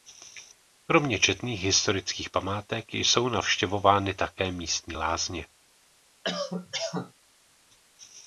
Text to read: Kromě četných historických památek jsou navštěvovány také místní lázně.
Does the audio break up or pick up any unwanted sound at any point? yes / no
yes